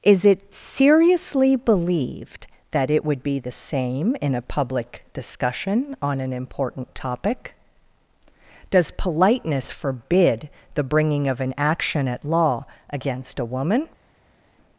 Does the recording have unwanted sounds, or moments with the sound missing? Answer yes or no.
no